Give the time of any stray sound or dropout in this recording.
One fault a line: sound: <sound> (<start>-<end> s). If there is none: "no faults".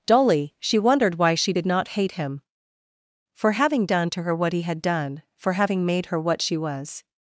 no faults